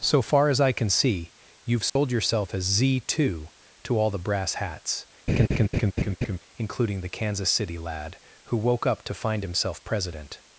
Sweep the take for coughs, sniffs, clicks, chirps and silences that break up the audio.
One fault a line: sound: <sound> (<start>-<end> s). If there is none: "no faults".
sound: dropout (1.9-2.0 s)
sound: laugh (5.3-6.4 s)